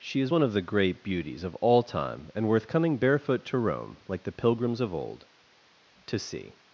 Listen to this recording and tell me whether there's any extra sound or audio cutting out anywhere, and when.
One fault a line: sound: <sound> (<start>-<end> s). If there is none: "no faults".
no faults